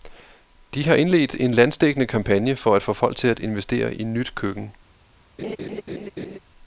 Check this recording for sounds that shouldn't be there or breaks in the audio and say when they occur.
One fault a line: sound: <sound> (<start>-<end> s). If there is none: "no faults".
sound: laugh (5.4-6.4 s)